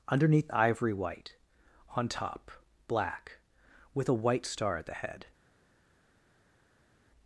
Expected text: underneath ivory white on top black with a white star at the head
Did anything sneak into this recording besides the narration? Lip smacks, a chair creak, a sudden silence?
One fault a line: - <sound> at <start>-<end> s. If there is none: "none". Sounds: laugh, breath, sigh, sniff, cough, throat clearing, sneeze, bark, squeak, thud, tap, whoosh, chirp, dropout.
none